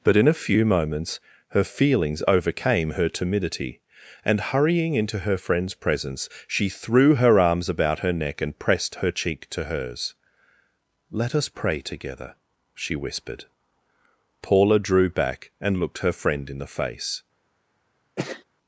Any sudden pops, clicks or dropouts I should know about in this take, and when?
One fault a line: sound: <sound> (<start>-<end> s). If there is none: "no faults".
sound: sneeze (18.2-18.4 s)